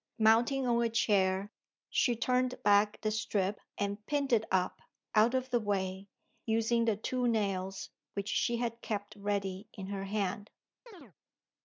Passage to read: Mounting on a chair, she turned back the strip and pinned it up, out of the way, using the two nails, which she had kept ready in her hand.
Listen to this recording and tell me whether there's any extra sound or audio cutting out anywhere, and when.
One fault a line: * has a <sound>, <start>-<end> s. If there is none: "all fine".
* has a chirp, 10.9-11.1 s